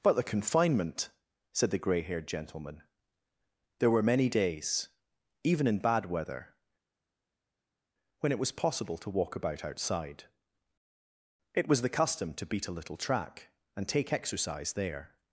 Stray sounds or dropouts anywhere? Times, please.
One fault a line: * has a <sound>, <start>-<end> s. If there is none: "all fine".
all fine